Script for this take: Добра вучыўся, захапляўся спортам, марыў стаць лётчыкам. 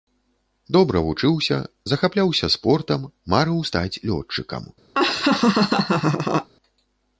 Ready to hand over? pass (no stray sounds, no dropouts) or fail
fail